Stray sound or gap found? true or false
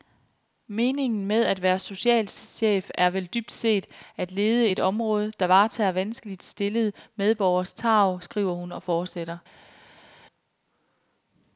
false